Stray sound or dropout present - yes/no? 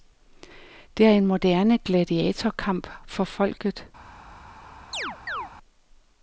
yes